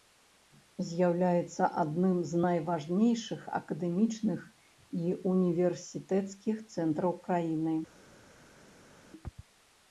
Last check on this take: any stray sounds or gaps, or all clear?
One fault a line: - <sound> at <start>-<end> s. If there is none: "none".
none